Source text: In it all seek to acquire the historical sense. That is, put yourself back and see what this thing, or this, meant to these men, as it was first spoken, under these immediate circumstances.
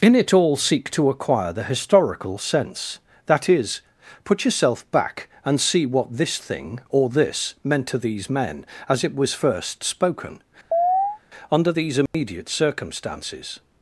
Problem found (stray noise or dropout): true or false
true